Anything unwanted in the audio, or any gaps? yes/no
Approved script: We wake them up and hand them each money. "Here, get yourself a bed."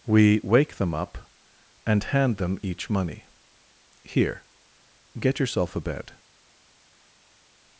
no